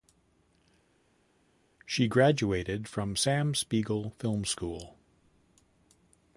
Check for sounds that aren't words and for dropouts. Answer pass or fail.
pass